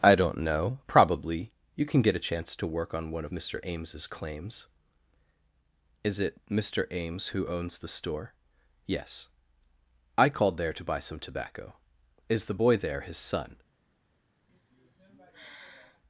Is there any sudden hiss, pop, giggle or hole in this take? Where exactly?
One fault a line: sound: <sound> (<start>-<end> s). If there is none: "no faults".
sound: sigh (14.5-16.0 s)